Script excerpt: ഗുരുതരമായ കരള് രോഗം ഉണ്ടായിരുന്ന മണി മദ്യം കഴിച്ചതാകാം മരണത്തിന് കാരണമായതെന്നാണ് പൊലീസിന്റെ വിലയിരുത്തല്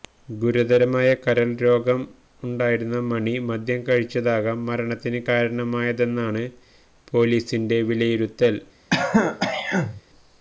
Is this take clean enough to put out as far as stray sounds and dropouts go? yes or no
no